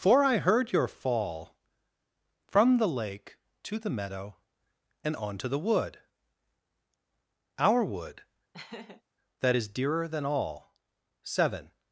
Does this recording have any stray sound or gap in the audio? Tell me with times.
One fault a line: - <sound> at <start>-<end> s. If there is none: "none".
- laugh at 8.5-9.0 s